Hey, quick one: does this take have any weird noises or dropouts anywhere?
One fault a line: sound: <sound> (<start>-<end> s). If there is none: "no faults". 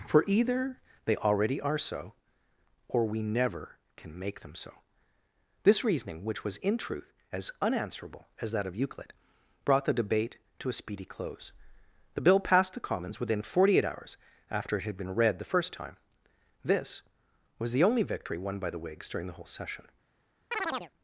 sound: chirp (20.5-20.9 s)